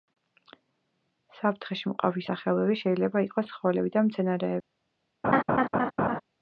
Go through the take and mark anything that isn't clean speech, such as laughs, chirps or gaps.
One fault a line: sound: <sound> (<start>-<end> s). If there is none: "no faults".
sound: laugh (5.2-6.2 s)